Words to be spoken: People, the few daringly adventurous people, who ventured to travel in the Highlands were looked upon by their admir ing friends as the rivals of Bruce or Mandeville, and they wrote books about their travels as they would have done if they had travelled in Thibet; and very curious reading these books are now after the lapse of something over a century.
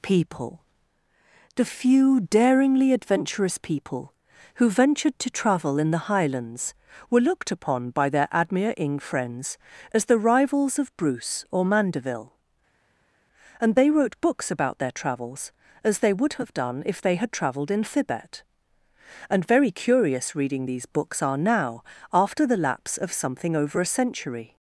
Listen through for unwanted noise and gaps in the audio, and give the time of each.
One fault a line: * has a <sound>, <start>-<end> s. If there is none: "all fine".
all fine